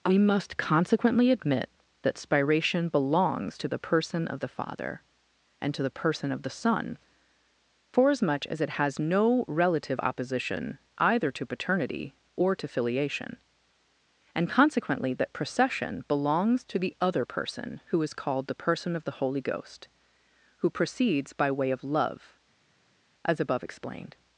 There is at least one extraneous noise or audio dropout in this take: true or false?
false